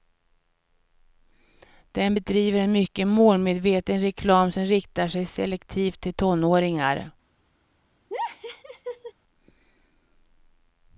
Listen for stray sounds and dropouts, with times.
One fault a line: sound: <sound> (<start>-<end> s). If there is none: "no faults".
sound: laugh (8.1-9.1 s)